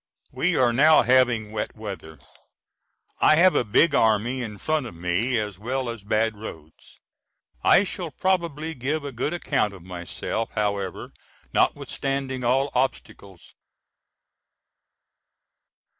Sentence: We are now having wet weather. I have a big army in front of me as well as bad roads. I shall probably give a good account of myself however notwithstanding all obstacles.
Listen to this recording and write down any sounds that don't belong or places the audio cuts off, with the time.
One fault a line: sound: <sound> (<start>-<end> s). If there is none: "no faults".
no faults